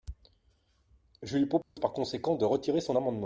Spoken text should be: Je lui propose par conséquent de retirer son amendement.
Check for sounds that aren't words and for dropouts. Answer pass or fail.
fail